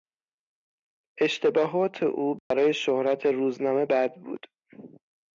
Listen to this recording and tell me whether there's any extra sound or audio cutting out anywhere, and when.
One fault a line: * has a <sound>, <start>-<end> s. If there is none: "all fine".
* has a dropout, 2.4-2.5 s